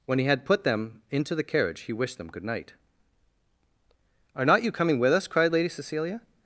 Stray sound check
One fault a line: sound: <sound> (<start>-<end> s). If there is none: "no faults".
no faults